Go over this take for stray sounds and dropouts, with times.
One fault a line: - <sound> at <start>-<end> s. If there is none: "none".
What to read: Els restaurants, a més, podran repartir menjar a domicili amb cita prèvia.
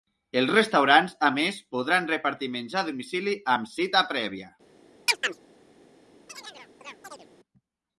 - chirp at 5.1-5.4 s
- chirp at 6.3-7.3 s